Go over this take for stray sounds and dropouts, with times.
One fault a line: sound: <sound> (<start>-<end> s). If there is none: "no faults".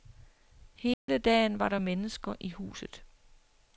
sound: dropout (0.9-1.1 s)